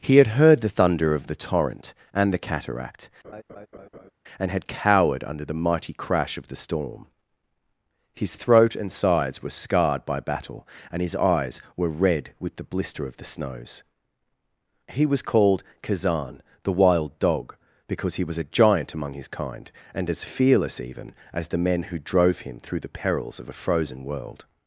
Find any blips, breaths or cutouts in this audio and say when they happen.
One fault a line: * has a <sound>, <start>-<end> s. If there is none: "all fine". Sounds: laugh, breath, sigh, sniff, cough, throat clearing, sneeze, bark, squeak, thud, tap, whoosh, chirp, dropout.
* has a laugh, 3.2-4.1 s